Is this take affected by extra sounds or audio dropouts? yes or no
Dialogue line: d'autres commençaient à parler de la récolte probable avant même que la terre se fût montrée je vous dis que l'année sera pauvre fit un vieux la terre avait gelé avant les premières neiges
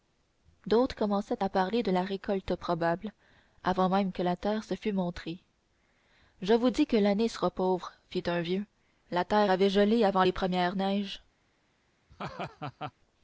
yes